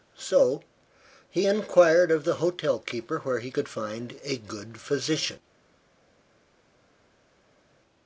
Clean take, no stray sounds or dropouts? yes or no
yes